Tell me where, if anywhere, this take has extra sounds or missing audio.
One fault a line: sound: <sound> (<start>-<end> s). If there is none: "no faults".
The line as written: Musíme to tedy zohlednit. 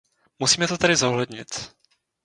no faults